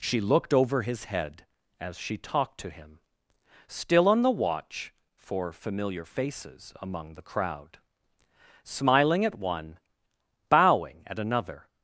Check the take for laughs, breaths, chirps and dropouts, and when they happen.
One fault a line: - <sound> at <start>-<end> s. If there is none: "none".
none